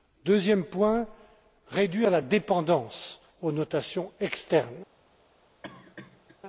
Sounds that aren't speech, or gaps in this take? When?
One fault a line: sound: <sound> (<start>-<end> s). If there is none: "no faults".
sound: cough (5.6-6.4 s)